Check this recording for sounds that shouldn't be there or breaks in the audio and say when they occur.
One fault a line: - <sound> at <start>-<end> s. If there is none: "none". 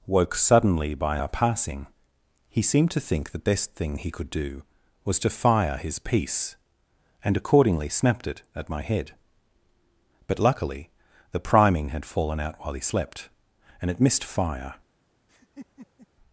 - laugh at 15.3-16.1 s